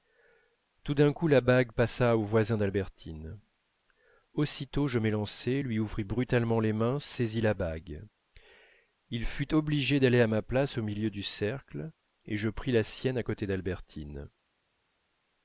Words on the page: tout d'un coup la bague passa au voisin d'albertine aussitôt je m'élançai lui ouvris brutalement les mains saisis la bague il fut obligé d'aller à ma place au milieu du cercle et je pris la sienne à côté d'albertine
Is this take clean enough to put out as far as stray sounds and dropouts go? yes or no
yes